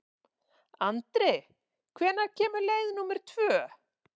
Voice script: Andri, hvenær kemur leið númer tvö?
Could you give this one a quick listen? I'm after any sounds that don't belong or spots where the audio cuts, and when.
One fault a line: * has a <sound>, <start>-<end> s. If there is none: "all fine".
all fine